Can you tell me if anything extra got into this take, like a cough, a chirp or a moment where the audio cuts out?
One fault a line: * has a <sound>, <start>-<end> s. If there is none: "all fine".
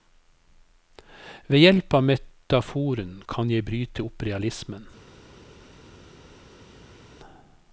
all fine